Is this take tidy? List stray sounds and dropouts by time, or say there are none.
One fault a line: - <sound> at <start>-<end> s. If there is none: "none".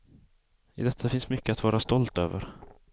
none